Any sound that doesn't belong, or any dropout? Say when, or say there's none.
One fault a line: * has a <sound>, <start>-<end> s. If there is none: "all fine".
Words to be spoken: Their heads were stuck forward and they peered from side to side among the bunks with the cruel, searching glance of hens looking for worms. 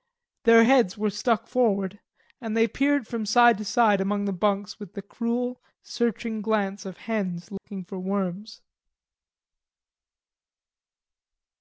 * has a dropout, 7.6-7.6 s